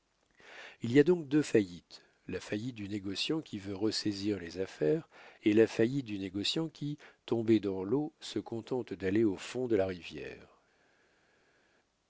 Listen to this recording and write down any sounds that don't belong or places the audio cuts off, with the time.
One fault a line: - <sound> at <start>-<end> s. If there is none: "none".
none